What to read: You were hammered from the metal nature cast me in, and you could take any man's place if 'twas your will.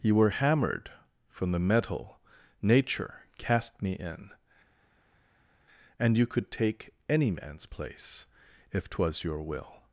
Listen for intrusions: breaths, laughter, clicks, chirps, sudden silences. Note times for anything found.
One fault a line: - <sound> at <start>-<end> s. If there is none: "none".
none